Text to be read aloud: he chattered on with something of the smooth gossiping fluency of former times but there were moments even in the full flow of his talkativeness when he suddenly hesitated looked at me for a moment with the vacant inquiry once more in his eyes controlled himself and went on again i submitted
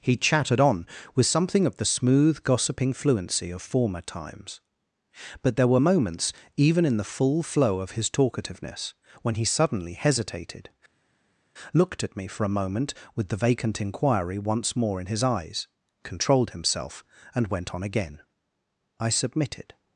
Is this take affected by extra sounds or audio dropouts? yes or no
no